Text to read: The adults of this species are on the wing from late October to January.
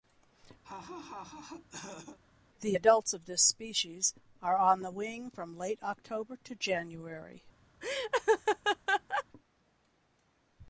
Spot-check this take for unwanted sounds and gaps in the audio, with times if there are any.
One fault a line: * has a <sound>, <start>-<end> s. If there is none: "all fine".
* has a laugh, 0.6-2.2 s
* has a laugh, 7.8-9.2 s